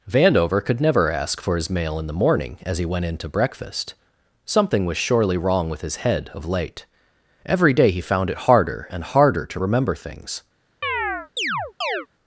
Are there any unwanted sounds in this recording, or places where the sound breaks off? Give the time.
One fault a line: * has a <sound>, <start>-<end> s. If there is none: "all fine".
* has a chirp, 10.8-12.1 s